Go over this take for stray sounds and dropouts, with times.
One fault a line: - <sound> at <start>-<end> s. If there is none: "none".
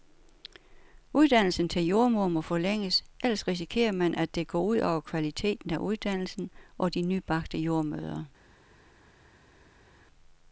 none